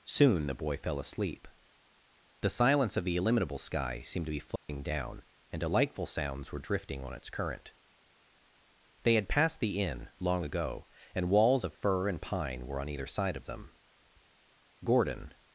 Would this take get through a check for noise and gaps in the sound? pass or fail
fail